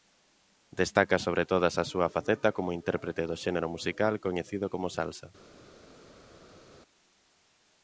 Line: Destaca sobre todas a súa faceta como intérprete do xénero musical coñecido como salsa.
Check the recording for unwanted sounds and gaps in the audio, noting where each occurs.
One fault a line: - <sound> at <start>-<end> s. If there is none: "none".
none